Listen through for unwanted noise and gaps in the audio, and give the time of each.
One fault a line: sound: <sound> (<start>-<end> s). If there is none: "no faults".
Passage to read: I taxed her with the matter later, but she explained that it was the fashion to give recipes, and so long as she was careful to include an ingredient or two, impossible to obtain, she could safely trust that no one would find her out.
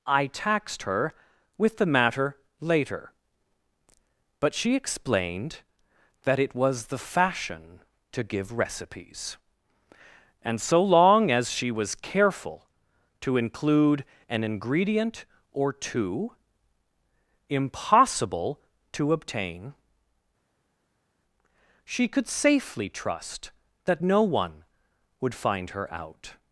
no faults